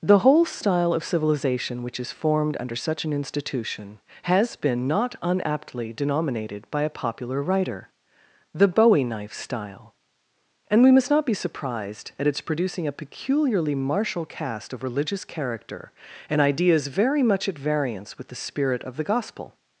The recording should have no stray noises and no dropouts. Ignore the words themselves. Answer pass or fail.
pass